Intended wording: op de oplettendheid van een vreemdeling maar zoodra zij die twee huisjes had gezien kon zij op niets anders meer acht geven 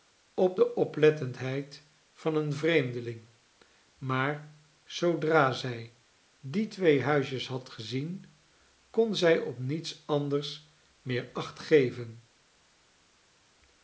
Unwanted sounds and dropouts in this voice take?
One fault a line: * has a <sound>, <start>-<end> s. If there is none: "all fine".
all fine